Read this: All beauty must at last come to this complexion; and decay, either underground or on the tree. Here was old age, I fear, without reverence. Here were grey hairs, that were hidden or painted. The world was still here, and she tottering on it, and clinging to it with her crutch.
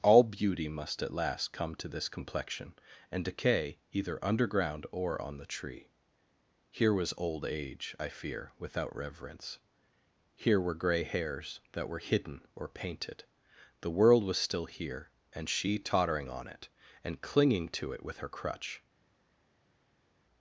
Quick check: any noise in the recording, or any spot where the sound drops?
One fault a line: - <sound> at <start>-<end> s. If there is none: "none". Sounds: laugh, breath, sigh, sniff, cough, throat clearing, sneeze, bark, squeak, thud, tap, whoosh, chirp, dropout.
none